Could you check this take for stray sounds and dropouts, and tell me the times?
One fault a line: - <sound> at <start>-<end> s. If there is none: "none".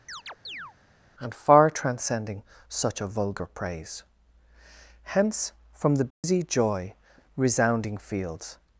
- chirp at 0.1-0.7 s
- dropout at 6.1-6.2 s